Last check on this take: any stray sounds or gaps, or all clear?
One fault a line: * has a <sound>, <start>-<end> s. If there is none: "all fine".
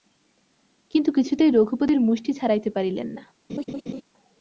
* has a laugh, 3.5-4.0 s